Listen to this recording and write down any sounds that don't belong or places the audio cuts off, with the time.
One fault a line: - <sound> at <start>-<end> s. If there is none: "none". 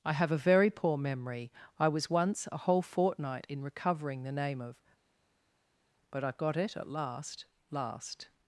none